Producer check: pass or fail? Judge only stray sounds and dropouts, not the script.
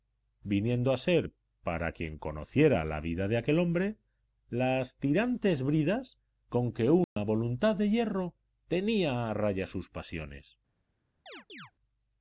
fail